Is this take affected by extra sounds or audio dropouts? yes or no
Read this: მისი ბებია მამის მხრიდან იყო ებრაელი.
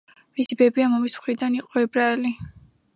yes